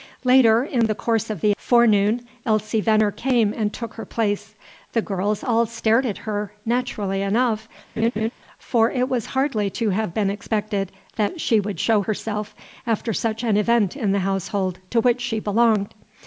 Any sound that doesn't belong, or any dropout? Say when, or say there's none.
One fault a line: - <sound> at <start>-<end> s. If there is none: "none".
- laugh at 8.0-8.3 s